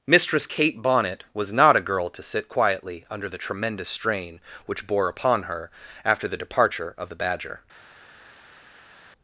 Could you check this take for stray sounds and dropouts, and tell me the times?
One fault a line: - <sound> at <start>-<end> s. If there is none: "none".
none